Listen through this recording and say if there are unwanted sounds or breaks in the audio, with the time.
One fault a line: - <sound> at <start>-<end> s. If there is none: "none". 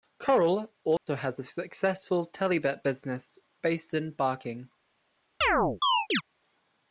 - dropout at 1.0-1.1 s
- chirp at 5.4-6.2 s